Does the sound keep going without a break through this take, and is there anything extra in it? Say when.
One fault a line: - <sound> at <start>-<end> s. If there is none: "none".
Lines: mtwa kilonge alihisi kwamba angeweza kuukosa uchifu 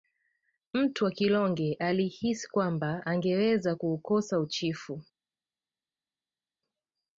none